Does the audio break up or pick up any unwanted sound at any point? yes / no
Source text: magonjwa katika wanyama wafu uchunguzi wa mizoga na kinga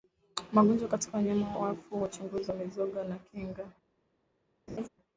yes